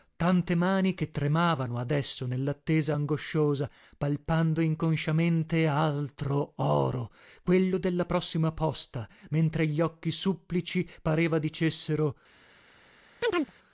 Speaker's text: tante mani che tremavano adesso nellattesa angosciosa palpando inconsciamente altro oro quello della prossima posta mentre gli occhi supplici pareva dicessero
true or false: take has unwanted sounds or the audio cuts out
true